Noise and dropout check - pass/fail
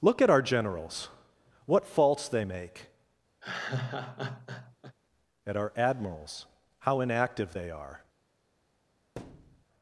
fail